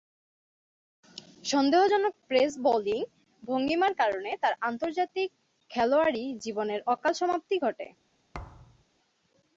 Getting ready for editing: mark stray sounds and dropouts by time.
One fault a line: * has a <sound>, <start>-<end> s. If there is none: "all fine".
* has a thud, 8.3-8.8 s